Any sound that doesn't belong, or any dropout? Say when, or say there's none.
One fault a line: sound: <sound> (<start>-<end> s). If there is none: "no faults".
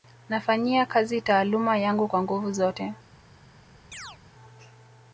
sound: chirp (3.9-4.2 s)